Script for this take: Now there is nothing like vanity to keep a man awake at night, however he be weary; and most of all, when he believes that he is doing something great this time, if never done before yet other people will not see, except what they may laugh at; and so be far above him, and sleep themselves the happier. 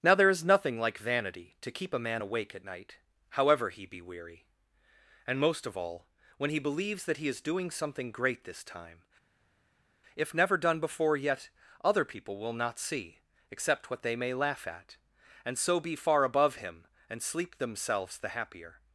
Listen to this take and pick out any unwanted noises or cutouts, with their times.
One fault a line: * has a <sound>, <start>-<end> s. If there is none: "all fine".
all fine